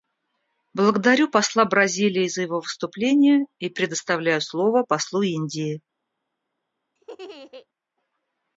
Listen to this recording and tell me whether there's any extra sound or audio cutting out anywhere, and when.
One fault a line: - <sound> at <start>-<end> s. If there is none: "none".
- laugh at 7.0-7.7 s